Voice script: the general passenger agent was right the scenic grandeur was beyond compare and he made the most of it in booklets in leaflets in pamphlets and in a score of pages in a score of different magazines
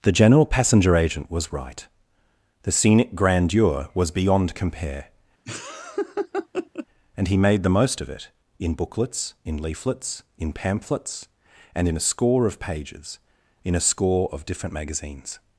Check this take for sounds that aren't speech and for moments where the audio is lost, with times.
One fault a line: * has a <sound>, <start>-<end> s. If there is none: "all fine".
* has a laugh, 5.5-6.9 s